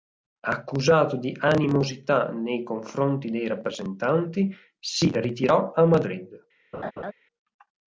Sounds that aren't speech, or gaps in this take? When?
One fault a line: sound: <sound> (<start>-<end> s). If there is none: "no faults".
sound: laugh (6.7-7.1 s)